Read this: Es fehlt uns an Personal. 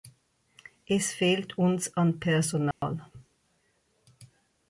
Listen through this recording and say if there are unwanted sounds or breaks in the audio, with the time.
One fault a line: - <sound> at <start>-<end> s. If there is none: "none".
- dropout at 2.7-2.8 s